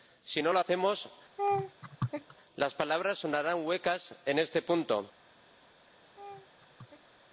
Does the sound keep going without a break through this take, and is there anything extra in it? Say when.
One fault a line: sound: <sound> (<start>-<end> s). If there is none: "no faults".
sound: laugh (1.4-2.4 s)
sound: laugh (6.2-7.1 s)